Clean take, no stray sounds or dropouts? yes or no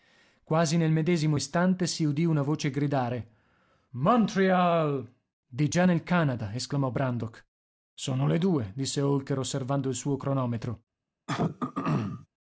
no